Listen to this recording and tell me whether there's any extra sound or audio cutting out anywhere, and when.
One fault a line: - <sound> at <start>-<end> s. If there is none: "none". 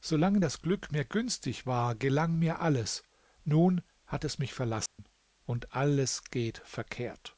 - dropout at 4.9-5.0 s